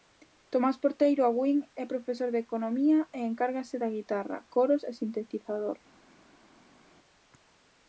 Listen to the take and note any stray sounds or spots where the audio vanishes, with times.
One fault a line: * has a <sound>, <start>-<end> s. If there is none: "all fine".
all fine